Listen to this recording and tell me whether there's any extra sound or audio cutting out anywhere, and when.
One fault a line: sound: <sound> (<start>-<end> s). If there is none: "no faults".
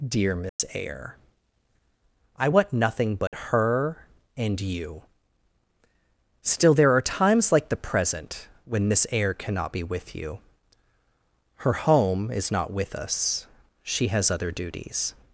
sound: dropout (0.5-0.6 s)
sound: dropout (3.3-3.3 s)